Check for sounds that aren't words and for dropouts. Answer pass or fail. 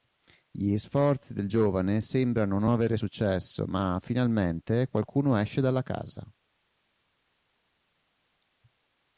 pass